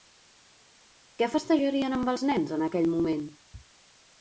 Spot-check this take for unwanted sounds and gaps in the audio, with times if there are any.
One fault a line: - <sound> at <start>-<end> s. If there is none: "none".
none